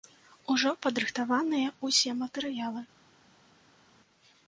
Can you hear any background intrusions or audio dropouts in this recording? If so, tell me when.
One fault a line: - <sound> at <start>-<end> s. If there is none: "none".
none